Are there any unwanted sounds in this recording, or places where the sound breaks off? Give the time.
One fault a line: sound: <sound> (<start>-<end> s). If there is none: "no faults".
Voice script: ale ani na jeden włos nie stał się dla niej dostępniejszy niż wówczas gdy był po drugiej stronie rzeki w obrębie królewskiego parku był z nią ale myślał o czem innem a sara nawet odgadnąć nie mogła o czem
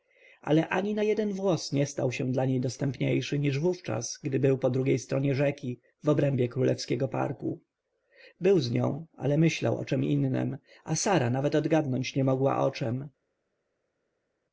no faults